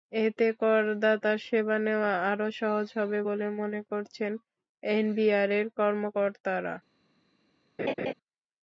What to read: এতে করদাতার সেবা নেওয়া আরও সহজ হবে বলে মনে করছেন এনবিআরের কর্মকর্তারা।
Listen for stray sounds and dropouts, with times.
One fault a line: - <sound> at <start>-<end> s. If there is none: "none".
- laugh at 7.8-8.1 s